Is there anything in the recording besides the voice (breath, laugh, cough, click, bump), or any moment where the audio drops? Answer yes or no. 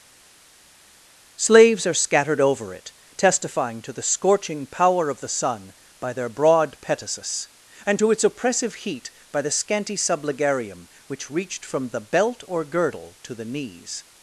no